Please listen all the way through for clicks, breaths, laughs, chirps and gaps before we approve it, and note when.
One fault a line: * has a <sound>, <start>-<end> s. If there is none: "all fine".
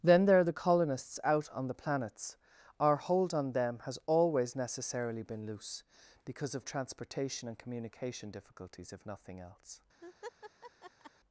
* has a laugh, 10.0-11.1 s